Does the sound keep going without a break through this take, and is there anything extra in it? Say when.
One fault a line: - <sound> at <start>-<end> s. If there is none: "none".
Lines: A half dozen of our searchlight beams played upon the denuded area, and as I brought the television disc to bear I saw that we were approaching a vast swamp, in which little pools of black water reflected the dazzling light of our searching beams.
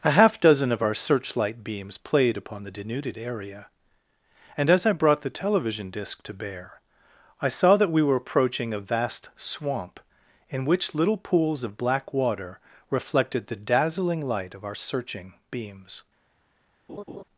- laugh at 16.9-17.2 s